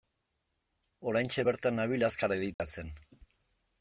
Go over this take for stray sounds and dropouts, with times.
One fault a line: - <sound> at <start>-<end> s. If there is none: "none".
- dropout at 2.5-2.6 s